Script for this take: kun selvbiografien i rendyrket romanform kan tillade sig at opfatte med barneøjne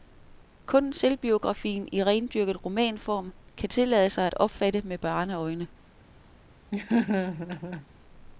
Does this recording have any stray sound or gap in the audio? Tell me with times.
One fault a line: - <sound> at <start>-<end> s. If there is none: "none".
- laugh at 6.7-7.9 s